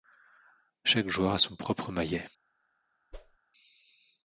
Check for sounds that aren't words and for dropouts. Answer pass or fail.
fail